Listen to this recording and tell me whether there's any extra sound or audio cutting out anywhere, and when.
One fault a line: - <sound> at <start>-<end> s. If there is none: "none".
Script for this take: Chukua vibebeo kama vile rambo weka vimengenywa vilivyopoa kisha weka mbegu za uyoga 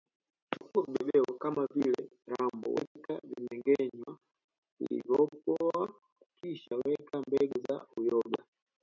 none